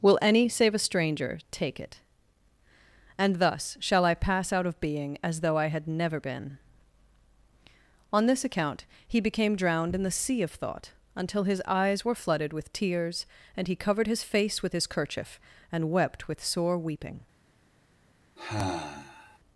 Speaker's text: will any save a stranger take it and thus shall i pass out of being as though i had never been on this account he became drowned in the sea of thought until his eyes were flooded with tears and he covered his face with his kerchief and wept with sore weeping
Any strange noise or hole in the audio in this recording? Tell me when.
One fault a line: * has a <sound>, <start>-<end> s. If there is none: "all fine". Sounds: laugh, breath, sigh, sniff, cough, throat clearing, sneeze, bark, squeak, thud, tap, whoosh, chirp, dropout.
* has a sigh, 18.4-19.4 s